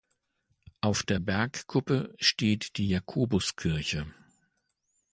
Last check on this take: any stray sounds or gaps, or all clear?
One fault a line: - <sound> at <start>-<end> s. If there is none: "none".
none